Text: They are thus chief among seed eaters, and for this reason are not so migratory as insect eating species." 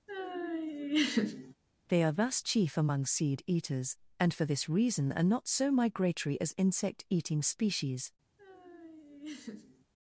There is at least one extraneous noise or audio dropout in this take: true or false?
true